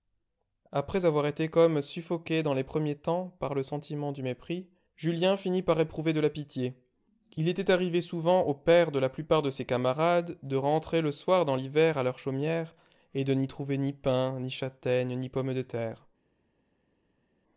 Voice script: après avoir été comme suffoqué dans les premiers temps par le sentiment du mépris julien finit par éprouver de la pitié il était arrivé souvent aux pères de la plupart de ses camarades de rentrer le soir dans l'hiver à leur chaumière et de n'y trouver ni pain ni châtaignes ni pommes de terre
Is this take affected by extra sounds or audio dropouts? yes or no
no